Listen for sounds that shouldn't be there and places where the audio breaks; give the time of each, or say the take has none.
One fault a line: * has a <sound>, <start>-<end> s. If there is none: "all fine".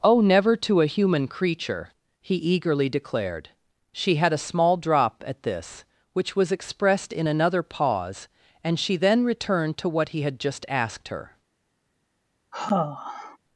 * has a sigh, 12.5-13.4 s